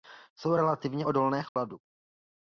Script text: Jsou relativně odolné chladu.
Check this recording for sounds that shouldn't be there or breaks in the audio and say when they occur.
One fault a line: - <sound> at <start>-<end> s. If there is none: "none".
- dropout at 1.5-1.6 s